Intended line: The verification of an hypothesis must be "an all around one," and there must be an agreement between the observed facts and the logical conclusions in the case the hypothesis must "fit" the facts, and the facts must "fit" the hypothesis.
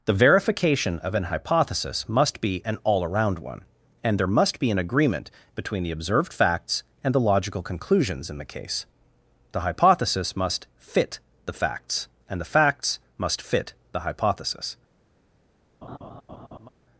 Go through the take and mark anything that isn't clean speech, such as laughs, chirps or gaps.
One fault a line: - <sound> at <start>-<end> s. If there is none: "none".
- laugh at 15.8-16.7 s